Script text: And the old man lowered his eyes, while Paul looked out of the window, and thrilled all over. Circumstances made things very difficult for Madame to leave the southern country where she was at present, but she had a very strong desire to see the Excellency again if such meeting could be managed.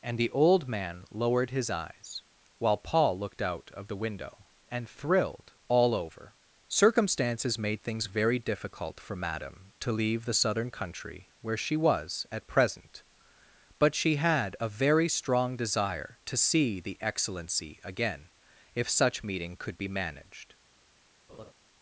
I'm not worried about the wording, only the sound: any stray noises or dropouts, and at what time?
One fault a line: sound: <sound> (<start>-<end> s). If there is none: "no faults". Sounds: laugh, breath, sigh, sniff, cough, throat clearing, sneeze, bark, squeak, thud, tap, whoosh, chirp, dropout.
sound: laugh (21.3-21.5 s)